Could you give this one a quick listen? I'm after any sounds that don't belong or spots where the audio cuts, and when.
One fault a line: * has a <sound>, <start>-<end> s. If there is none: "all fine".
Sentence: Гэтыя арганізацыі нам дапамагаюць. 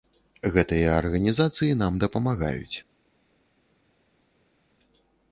all fine